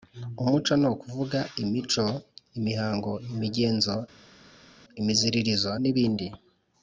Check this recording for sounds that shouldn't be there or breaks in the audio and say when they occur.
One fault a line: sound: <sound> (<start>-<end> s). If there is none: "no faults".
no faults